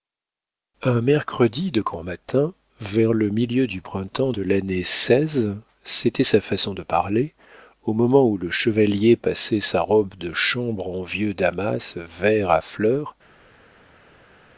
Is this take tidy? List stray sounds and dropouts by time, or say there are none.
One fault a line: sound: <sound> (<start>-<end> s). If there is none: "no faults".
no faults